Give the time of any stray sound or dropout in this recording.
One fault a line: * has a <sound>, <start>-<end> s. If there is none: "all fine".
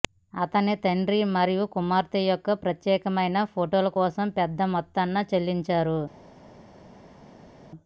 all fine